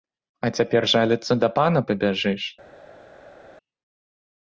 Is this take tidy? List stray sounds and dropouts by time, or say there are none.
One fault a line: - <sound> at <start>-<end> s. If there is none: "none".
none